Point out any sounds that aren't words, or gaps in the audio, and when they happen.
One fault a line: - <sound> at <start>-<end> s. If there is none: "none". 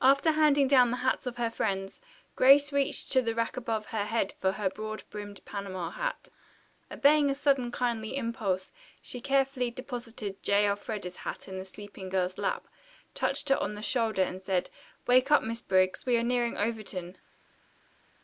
none